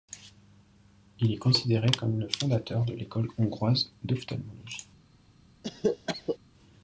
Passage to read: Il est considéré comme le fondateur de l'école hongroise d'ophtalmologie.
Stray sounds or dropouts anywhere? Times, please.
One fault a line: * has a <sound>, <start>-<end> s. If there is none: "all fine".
* has a cough, 5.6-6.4 s